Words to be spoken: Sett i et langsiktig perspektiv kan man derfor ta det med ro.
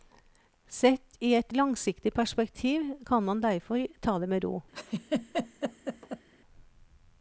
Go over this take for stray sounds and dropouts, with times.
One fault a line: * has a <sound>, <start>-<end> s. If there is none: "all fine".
* has a laugh, 4.7-6.3 s